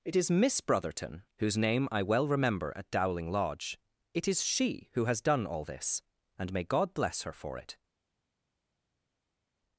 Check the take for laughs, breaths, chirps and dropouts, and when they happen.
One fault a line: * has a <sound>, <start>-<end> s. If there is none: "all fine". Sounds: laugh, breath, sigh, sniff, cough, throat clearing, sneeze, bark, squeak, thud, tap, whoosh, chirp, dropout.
all fine